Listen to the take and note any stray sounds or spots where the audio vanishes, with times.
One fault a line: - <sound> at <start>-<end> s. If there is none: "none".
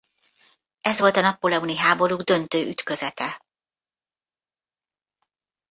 none